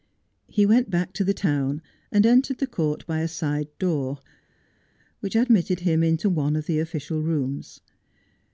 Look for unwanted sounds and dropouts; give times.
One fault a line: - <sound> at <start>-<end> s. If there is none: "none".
none